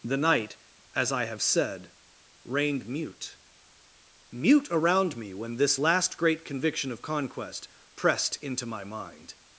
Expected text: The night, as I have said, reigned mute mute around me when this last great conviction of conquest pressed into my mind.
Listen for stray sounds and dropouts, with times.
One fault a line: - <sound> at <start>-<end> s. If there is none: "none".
none